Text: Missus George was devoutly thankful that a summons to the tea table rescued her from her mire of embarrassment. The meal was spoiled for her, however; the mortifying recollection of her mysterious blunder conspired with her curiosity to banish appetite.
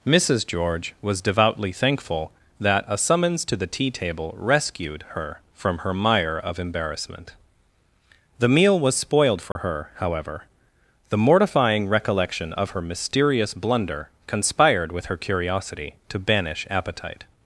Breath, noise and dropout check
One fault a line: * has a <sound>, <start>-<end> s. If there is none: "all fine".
* has a dropout, 9.5-9.6 s